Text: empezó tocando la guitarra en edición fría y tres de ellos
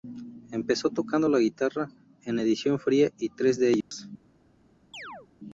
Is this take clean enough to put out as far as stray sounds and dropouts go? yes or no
no